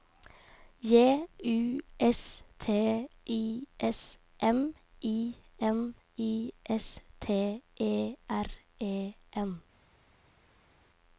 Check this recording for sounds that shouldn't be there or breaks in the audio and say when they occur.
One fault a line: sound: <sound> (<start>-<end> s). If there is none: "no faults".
no faults